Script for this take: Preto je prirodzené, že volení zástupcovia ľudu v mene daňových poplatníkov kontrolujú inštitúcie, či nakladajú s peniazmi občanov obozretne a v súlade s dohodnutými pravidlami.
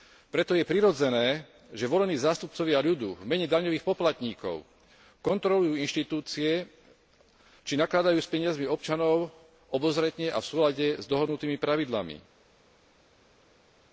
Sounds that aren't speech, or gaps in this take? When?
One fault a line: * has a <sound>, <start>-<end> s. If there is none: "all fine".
all fine